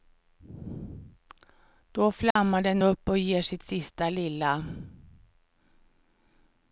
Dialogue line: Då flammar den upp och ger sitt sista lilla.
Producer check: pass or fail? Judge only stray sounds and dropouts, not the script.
fail